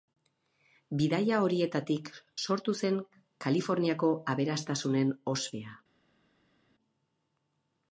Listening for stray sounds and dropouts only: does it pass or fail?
pass